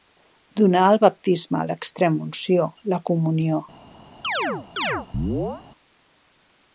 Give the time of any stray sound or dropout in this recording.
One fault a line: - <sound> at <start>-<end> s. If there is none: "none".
- chirp at 4.2-5.6 s